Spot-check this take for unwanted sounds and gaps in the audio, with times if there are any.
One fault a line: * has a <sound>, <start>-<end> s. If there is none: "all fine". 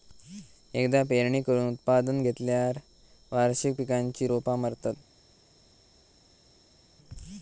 all fine